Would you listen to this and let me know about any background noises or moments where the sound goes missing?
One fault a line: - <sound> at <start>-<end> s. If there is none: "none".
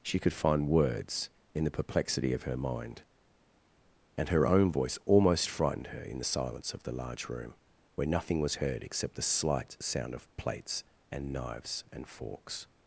none